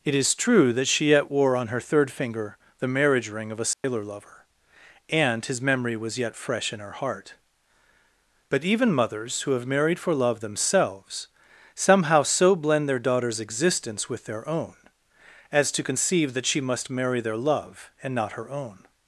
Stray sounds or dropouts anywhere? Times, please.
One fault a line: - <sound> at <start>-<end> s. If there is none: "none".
- dropout at 3.7-3.8 s